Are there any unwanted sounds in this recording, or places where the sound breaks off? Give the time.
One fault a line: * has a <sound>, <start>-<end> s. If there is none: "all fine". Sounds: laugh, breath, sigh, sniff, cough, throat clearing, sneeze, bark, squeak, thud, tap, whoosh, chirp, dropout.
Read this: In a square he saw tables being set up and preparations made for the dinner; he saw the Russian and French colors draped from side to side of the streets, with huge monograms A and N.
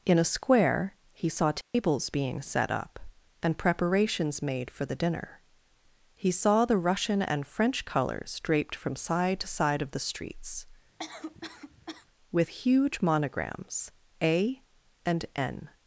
* has a dropout, 1.6-1.7 s
* has a cough, 11.0-12.1 s